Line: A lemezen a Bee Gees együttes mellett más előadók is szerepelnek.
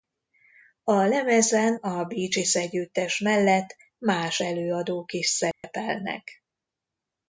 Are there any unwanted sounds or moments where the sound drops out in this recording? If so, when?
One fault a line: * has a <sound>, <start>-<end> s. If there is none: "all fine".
* has a dropout, 5.5-5.6 s